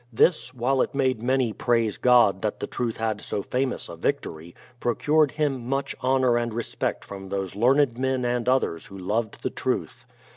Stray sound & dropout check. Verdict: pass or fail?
pass